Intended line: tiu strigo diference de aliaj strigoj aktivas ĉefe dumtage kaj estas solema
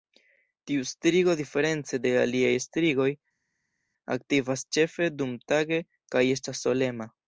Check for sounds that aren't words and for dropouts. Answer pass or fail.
pass